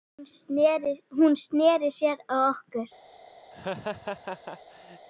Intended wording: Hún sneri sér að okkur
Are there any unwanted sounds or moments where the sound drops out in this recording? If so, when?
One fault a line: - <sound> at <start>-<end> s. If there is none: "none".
- laugh at 3.5-5.1 s